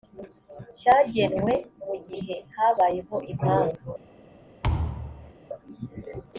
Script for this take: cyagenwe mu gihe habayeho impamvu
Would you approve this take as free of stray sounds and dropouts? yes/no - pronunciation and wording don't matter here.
no